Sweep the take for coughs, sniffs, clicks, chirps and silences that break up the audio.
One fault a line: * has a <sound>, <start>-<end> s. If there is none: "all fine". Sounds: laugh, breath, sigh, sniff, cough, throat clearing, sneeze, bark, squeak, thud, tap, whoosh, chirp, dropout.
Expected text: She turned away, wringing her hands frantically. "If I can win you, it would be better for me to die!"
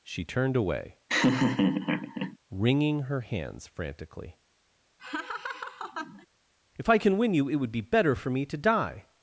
* has a laugh, 1.1-2.4 s
* has a laugh, 5.0-6.3 s